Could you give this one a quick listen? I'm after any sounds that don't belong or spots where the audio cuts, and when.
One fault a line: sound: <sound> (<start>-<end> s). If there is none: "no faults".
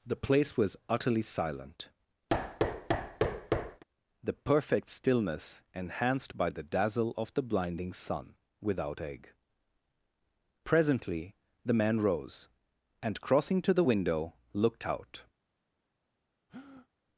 sound: thud (2.3-3.8 s)
sound: breath (16.5-16.9 s)